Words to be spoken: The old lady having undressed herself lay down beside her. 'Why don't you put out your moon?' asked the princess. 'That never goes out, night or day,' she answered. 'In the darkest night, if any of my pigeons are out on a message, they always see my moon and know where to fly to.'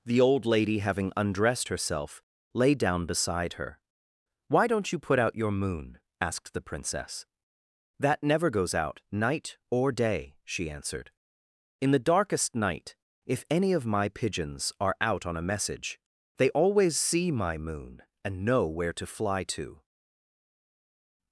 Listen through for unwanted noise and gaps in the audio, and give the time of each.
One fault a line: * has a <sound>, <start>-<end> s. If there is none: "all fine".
all fine